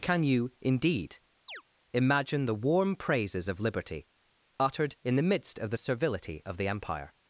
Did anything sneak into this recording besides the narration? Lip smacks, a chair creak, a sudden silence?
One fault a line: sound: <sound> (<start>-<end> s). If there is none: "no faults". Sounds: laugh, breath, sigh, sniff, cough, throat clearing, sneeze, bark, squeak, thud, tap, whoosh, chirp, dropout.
sound: chirp (1.5-1.6 s)